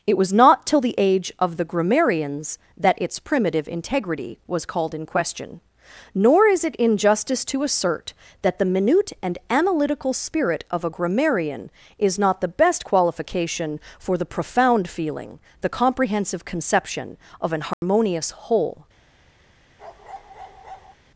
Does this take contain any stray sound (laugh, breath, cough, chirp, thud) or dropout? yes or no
yes